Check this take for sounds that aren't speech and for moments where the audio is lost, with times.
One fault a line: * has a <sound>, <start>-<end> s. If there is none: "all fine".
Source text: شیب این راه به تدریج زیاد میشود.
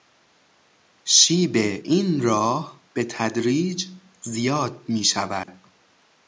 * has a dropout, 5.4-5.5 s